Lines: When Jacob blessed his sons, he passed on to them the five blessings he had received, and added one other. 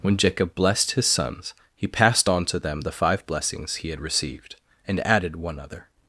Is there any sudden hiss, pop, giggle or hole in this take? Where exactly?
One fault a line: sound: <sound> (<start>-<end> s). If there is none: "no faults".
no faults